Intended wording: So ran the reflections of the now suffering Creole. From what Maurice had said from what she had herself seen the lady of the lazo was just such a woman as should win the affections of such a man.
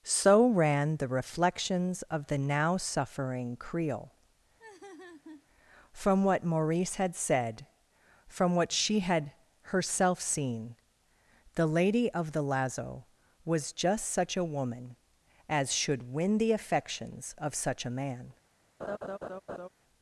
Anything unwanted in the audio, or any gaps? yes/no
yes